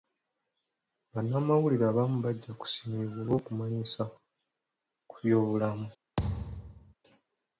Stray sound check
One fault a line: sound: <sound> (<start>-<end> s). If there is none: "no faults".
sound: thud (6.2-6.9 s)